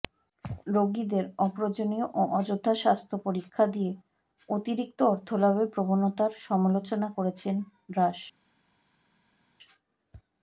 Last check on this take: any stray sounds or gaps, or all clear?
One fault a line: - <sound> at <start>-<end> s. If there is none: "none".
none